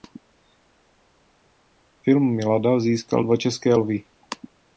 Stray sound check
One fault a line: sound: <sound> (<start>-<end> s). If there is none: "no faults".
no faults